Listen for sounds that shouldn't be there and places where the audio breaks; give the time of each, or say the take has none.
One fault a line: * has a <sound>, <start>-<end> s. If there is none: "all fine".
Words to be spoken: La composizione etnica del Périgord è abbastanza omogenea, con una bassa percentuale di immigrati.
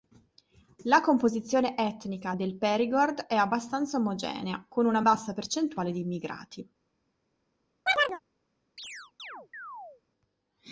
* has a chirp, 7.9-8.2 s
* has a chirp, 8.8-10.0 s